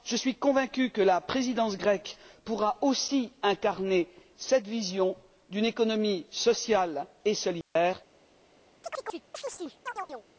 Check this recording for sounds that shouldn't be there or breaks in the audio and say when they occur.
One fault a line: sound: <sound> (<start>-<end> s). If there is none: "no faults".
sound: dropout (7.6-7.8 s)
sound: chirp (8.8-10.3 s)